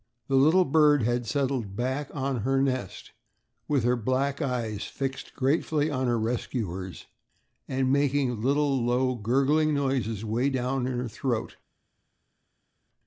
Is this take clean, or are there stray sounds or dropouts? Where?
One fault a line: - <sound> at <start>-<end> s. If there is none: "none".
none